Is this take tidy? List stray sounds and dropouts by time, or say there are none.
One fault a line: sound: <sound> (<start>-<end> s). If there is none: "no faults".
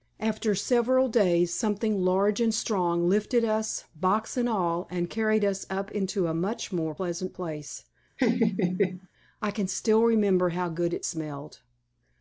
sound: laugh (8.2-9.1 s)